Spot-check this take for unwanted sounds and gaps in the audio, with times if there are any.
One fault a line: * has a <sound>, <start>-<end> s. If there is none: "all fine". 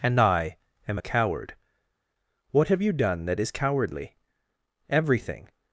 all fine